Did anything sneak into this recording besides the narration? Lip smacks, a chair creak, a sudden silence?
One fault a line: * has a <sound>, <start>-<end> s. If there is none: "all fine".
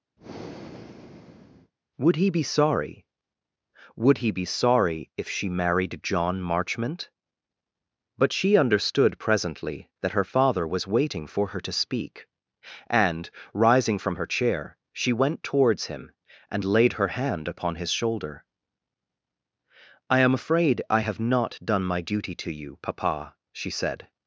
* has a breath, 0.2-1.7 s